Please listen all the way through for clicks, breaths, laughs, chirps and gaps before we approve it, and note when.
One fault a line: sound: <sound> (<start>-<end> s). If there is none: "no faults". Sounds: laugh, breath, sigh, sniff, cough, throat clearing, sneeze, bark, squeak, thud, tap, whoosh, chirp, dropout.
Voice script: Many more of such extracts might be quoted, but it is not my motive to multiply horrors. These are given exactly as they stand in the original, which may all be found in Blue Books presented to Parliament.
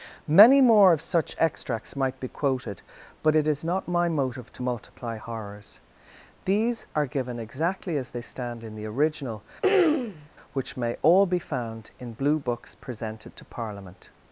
sound: throat clearing (9.6-10.3 s)